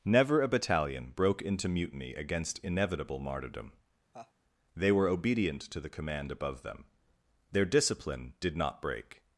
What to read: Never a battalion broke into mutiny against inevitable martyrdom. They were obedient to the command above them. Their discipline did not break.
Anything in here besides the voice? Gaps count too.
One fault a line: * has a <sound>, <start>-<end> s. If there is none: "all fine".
* has a laugh, 4.1-4.3 s